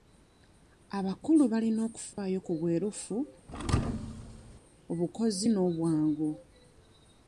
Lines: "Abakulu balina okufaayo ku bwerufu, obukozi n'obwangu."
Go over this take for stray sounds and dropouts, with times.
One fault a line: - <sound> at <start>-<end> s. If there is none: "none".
- dropout at 2.1-2.2 s
- thud at 3.5-4.6 s